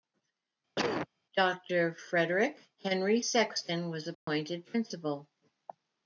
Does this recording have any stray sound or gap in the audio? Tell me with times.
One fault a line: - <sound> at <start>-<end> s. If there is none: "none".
- cough at 0.8-1.1 s
- dropout at 4.1-4.3 s